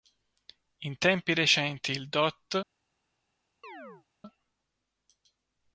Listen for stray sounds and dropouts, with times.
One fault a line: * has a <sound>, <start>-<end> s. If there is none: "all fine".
* has a chirp, 3.6-4.1 s